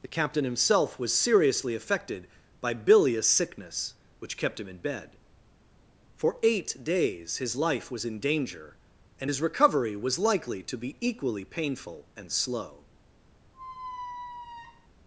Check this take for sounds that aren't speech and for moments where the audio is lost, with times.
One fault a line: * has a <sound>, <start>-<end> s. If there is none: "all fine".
* has a squeak, 13.5-14.9 s